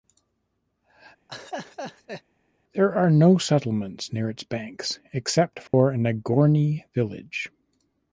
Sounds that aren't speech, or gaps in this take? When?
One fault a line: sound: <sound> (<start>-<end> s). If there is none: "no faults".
sound: laugh (1.3-2.2 s)
sound: dropout (5.7-5.7 s)